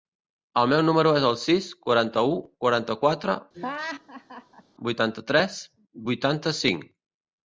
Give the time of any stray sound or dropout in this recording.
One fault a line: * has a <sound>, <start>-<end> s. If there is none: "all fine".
* has a laugh, 3.5-4.6 s